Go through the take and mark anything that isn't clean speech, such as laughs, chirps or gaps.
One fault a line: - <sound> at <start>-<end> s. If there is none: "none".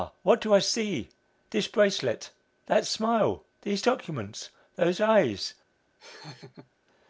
- laugh at 6.0-6.7 s